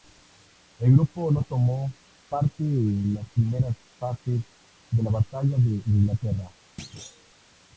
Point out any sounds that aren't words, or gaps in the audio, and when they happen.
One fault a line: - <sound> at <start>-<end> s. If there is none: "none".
- thud at 6.8-7.3 s